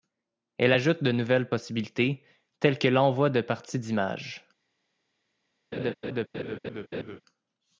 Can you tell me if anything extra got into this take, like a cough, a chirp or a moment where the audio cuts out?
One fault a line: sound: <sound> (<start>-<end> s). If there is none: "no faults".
sound: laugh (5.7-7.2 s)